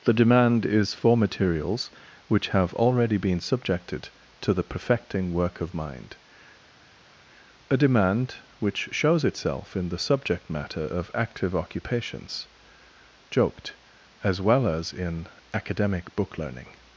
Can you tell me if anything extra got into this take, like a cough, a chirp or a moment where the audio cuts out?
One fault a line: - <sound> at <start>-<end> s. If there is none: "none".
none